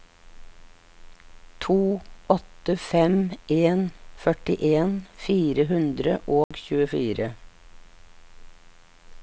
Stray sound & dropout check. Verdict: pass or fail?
fail